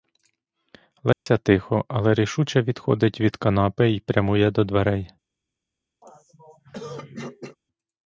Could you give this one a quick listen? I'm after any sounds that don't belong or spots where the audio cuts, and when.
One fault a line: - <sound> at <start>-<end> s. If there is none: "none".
- dropout at 1.1-1.3 s
- throat clearing at 6.0-7.6 s